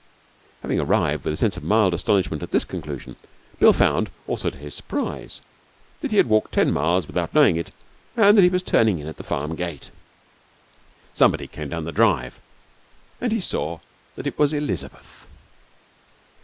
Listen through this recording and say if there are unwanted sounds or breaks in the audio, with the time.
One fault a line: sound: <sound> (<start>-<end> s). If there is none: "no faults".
no faults